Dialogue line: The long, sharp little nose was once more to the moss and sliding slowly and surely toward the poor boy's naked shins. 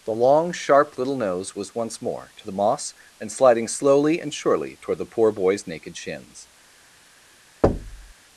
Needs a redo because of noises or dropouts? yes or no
yes